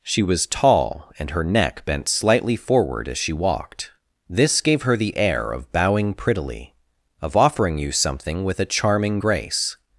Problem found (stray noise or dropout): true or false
false